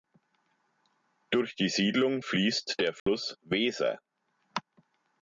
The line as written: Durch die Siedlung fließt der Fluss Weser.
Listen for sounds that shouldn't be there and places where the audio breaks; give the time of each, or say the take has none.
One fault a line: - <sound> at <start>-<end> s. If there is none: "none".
- dropout at 3.0-3.1 s